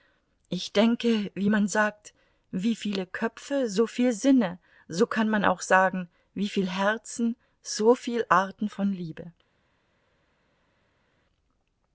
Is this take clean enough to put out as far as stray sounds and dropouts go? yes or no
yes